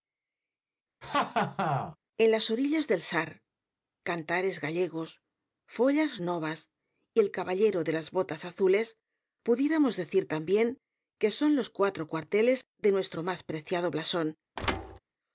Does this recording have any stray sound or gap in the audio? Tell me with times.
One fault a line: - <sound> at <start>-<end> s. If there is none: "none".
- laugh at 1.0-2.0 s
- thud at 14.6-15.0 s